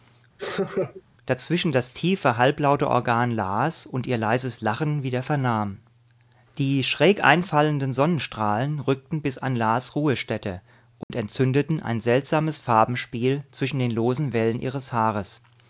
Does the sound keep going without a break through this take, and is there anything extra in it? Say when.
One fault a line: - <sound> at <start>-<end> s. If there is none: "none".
- laugh at 0.4-1.0 s
- dropout at 11.0-11.1 s